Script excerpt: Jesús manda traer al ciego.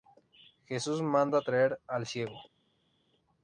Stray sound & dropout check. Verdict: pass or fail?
pass